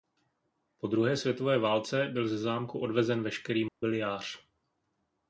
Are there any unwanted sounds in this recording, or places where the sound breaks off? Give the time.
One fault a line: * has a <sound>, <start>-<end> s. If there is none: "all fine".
* has a dropout, 3.7-3.8 s